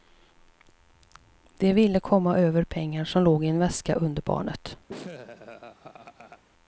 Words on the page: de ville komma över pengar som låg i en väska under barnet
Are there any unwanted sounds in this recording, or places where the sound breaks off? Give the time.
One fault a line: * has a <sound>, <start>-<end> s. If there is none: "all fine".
* has a laugh, 4.9-6.4 s